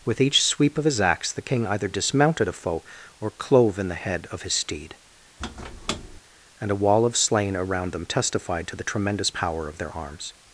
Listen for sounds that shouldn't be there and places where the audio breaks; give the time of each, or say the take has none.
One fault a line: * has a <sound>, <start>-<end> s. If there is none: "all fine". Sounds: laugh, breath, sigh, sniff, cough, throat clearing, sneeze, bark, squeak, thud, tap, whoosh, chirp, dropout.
* has a squeak, 5.4-6.2 s